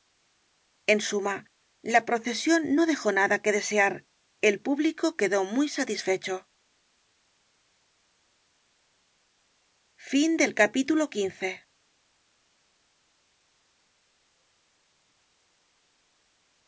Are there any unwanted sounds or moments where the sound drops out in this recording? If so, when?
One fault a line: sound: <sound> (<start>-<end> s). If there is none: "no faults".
no faults